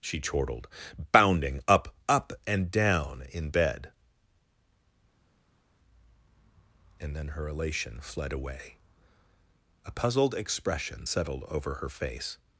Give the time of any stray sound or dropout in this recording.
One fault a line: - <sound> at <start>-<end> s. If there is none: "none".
none